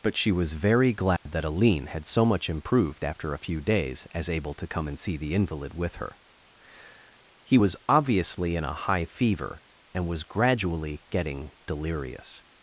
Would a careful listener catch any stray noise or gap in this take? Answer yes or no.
yes